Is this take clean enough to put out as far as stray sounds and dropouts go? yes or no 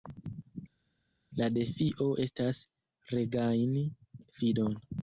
yes